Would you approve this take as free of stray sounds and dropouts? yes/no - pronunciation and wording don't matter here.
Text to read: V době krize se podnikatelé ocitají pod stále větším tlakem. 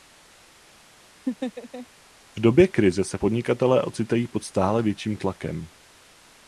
no